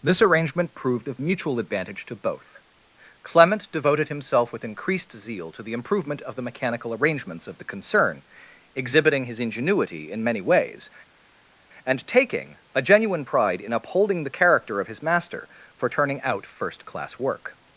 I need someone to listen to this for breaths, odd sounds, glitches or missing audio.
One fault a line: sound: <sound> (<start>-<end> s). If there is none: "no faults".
no faults